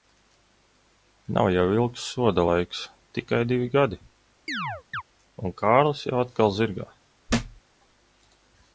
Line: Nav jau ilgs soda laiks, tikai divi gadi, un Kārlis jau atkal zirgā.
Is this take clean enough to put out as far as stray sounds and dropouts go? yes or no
no